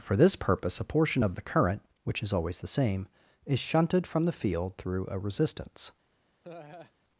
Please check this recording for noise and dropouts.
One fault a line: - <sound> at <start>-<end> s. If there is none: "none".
- laugh at 6.4-6.9 s